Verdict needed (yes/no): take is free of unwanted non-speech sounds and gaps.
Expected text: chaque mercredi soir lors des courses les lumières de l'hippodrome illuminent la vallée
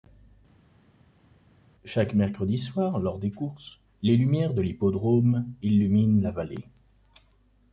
yes